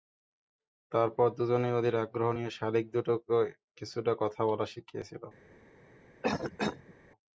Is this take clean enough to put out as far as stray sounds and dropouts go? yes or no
no